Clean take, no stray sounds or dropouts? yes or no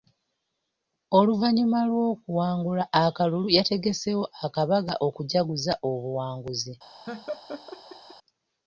no